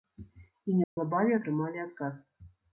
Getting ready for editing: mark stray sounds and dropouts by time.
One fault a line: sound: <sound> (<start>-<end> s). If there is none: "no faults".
sound: dropout (0.8-1.0 s)